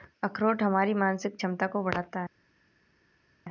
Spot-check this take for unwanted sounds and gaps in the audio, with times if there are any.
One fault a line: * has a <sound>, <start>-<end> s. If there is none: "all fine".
all fine